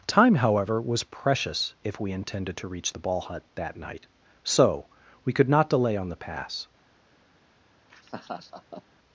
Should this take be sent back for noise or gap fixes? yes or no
yes